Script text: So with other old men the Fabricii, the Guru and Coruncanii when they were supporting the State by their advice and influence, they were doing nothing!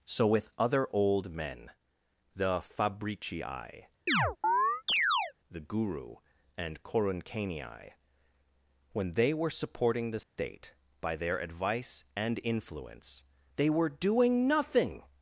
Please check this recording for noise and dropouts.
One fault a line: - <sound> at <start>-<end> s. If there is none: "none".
- chirp at 4.1-5.3 s
- dropout at 10.2-10.4 s